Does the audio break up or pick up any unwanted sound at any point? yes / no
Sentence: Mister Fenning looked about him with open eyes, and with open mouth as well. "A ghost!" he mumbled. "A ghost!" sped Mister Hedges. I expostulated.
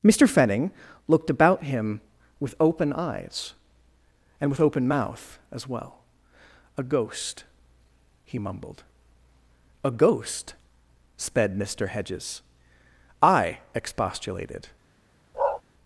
yes